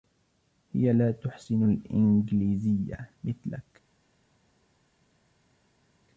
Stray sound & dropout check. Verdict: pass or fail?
pass